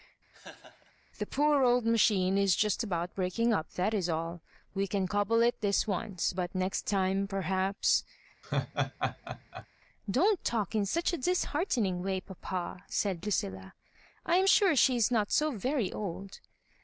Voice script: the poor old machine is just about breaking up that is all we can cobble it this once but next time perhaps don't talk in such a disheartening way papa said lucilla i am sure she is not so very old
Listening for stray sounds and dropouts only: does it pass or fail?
fail